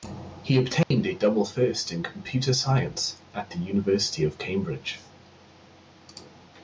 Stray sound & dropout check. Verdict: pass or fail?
fail